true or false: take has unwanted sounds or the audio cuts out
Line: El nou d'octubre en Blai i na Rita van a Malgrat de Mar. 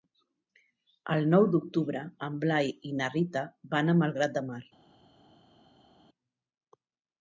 false